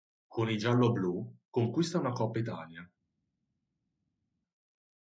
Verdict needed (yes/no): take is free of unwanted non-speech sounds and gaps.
yes